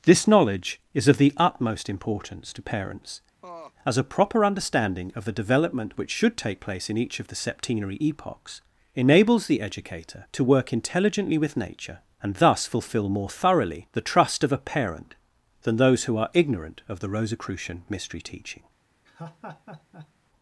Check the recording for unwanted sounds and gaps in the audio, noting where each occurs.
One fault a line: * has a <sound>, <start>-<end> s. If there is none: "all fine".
* has a laugh, 3.4-3.7 s
* has a laugh, 19.1-20.1 s